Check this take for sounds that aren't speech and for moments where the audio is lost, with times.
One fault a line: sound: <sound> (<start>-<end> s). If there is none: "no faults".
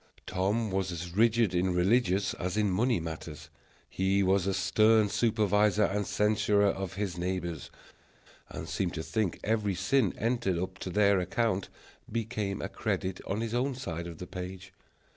no faults